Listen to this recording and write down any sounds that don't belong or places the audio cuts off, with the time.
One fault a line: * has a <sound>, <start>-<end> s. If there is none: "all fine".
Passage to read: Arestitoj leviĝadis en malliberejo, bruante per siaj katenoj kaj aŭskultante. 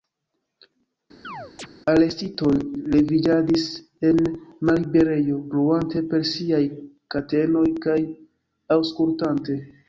* has a chirp, 1.2-1.7 s